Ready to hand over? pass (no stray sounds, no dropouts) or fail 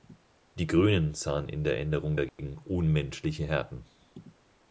fail